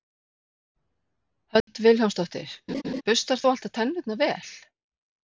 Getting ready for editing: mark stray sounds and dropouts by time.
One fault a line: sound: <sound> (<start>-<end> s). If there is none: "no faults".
sound: dropout (1.6-1.7 s)
sound: laugh (2.7-3.0 s)